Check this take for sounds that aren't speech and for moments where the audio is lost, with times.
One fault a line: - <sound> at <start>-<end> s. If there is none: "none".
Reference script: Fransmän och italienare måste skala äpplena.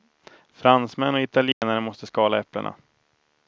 - dropout at 1.5-1.6 s